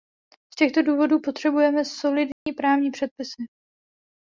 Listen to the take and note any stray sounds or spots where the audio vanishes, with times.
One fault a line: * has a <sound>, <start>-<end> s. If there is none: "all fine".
* has a dropout, 2.3-2.5 s